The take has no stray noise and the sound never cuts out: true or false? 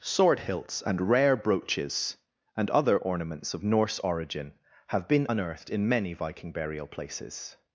true